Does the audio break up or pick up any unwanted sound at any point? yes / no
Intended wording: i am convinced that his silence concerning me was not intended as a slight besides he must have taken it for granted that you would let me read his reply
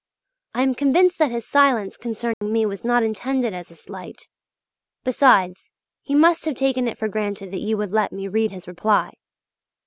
yes